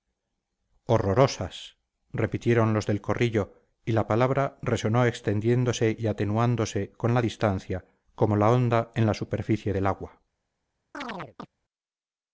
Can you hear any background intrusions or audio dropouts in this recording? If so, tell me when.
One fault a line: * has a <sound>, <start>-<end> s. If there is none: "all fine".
* has a chirp, 10.9-11.5 s